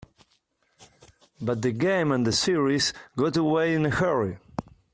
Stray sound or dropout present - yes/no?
no